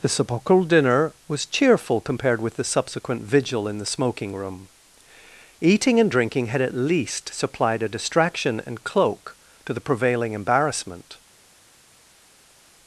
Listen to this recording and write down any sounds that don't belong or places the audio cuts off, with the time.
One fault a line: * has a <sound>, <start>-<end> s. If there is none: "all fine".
all fine